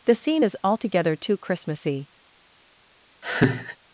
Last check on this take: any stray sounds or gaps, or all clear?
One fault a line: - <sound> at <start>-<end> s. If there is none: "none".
- laugh at 3.2-3.8 s